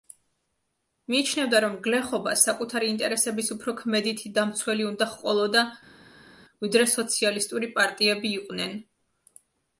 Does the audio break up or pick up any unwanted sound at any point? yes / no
no